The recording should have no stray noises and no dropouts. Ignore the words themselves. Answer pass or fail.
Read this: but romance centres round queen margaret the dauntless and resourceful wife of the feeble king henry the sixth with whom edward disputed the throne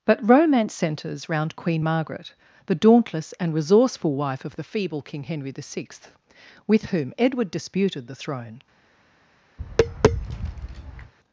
fail